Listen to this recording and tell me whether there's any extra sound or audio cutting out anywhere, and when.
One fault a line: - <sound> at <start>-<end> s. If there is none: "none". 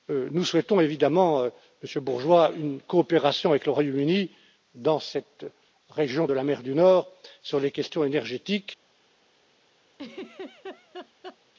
- laugh at 9.9-11.4 s